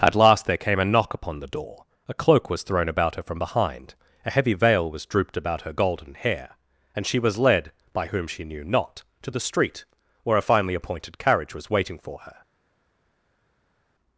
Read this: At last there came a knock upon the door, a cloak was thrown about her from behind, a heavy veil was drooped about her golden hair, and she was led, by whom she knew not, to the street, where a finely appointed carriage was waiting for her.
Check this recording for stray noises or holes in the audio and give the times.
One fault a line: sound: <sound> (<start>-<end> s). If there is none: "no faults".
no faults